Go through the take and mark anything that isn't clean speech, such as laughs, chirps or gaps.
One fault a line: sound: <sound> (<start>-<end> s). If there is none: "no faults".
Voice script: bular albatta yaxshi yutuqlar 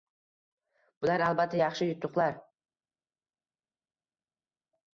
no faults